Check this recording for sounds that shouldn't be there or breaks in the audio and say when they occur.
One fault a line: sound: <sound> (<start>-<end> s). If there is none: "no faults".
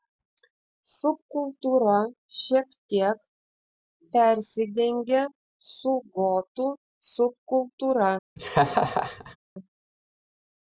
sound: laugh (8.4-9.4 s)